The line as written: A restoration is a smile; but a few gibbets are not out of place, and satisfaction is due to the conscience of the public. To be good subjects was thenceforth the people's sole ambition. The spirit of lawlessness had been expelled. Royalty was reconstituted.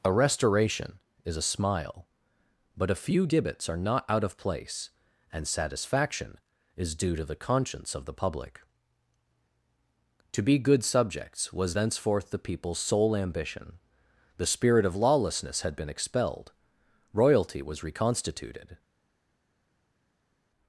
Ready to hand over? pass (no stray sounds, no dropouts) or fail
pass